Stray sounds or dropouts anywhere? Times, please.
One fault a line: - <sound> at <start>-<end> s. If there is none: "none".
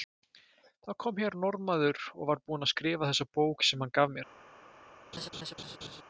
- laugh at 5.1-6.0 s